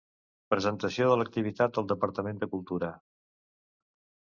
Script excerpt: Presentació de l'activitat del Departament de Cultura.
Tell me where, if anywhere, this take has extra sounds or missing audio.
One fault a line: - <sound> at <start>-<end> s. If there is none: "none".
none